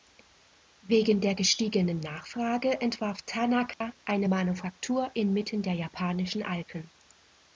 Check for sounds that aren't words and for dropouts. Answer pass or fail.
fail